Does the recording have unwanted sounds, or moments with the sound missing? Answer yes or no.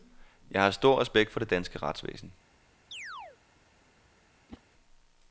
yes